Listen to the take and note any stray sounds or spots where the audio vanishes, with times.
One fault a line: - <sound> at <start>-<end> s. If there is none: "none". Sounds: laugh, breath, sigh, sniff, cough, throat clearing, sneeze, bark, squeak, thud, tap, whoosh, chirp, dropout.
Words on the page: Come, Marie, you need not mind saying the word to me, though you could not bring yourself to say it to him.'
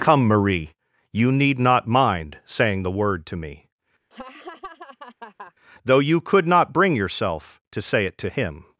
- laugh at 4.1-5.5 s